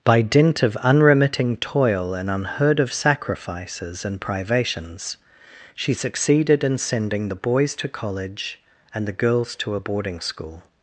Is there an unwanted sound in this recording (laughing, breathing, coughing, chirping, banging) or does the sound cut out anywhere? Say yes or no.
no